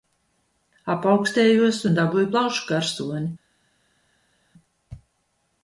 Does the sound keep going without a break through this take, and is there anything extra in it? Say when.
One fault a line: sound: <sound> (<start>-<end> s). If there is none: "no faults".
no faults